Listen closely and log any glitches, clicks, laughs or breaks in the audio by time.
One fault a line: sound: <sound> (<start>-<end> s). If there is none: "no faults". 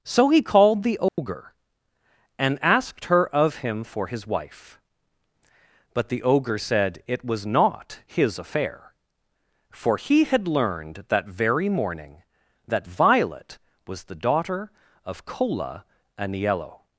sound: dropout (1.1-1.2 s)